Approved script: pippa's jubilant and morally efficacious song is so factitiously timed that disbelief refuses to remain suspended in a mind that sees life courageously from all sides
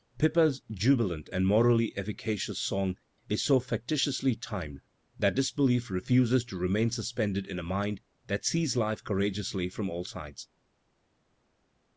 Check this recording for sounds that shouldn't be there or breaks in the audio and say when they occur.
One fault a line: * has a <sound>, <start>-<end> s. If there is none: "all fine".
all fine